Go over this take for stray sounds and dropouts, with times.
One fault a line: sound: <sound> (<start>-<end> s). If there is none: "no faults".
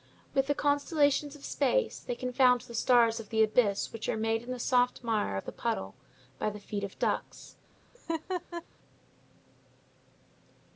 sound: laugh (7.9-8.6 s)